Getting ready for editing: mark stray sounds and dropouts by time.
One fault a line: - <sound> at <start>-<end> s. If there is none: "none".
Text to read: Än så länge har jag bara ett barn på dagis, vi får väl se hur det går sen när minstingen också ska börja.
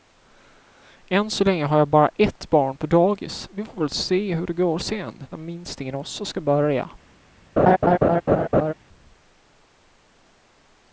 - laugh at 7.6-8.7 s